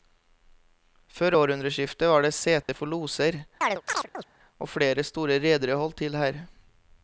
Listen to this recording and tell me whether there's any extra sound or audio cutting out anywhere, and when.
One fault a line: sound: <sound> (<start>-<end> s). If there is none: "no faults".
sound: dropout (2.6-2.7 s)
sound: chirp (3.6-4.2 s)